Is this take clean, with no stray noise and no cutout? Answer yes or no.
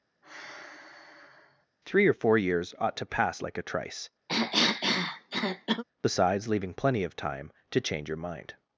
no